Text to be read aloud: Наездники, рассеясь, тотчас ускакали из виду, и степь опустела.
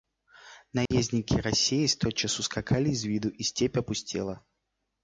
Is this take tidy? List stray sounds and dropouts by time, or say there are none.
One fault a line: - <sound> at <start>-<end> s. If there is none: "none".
- dropout at 0.9-0.9 s